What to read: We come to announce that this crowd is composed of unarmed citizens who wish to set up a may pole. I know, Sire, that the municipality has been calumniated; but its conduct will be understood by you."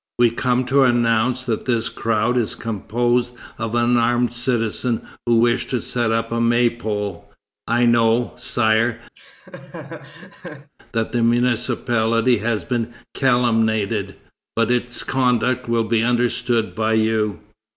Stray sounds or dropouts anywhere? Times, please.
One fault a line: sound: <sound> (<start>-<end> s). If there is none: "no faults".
sound: laugh (9.1-10.7 s)